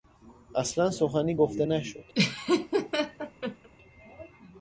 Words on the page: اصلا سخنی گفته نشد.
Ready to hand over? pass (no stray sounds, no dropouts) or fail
fail